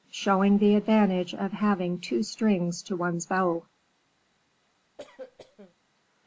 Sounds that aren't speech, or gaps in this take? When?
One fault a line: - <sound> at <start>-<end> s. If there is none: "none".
- cough at 5.0-5.8 s